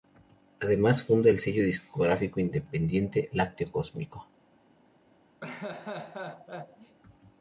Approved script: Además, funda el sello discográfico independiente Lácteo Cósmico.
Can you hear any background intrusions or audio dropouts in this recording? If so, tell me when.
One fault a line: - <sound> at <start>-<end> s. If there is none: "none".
- laugh at 5.4-7.0 s